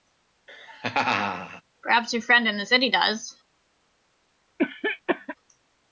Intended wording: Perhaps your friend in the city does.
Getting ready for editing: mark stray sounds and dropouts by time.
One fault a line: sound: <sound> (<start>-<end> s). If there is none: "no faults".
sound: laugh (0.5-1.6 s)
sound: cough (4.6-5.4 s)